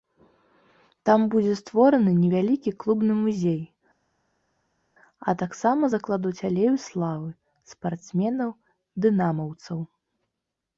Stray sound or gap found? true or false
false